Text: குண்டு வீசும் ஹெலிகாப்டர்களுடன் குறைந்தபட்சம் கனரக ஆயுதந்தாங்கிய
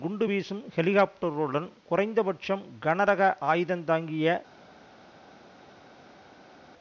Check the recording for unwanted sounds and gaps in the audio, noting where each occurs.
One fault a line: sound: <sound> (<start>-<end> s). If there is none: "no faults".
no faults